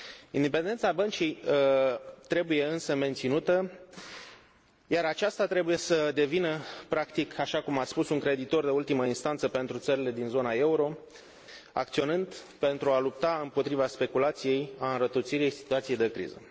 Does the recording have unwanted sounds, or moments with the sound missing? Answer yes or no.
no